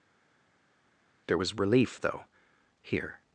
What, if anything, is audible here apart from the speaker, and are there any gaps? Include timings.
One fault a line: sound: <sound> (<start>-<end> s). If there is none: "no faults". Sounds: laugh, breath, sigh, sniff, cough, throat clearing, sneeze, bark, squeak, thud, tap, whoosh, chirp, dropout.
no faults